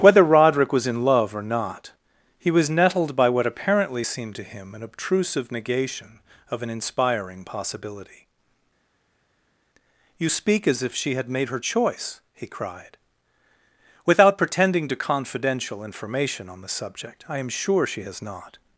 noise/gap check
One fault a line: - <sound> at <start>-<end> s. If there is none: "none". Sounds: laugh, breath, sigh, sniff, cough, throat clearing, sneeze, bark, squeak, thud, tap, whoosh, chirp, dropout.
none